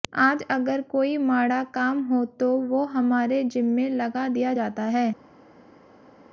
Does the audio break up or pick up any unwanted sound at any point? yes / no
no